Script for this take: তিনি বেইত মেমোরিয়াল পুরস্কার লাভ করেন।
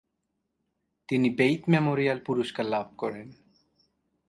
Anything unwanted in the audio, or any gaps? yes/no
no